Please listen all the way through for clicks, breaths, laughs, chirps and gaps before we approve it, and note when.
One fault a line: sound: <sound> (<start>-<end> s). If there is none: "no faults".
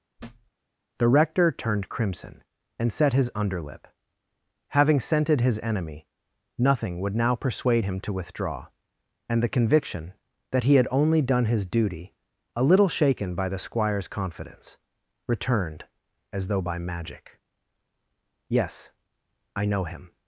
sound: thud (0.2-0.5 s)